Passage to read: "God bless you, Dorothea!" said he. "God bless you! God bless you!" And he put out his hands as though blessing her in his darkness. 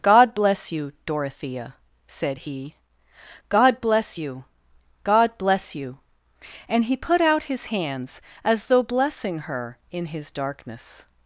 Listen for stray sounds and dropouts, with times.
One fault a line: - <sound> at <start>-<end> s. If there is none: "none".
none